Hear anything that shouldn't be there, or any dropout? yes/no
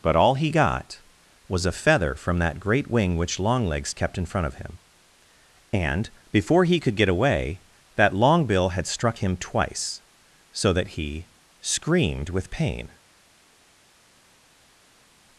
no